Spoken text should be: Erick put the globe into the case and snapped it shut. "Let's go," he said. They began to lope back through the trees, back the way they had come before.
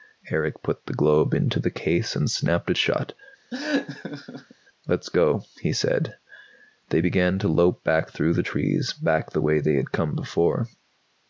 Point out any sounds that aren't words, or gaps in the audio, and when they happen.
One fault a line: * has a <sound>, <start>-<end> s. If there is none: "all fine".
* has a laugh, 3.5-4.6 s